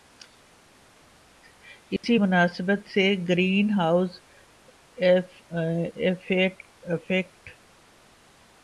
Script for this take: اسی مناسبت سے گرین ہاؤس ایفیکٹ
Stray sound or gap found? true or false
true